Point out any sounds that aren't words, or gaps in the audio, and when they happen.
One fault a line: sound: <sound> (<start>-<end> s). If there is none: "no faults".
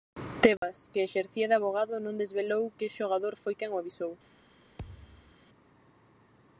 sound: dropout (0.6-0.6 s)
sound: thud (4.8-5.4 s)